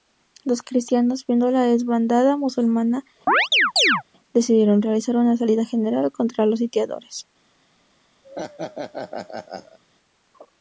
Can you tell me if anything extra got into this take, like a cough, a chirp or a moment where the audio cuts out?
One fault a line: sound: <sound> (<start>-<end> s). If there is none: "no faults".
sound: chirp (3.3-4.0 s)
sound: laugh (8.2-9.8 s)